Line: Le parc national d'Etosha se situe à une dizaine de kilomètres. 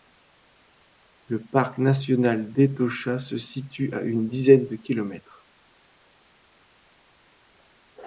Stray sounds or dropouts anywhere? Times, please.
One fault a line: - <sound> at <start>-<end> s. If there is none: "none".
none